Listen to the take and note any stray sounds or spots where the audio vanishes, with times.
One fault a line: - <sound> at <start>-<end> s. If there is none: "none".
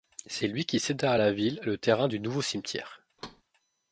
- thud at 3.2-3.4 s